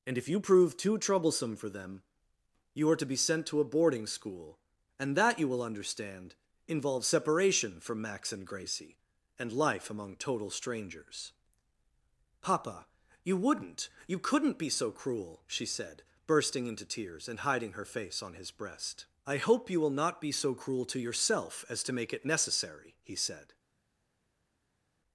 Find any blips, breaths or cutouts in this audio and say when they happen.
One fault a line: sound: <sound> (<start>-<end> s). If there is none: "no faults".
no faults